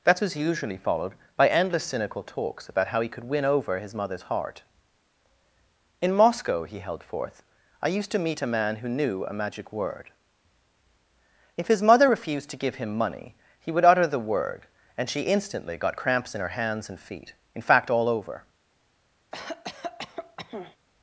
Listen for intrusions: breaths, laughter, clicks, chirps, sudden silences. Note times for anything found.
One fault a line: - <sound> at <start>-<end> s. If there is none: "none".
- cough at 19.3-20.8 s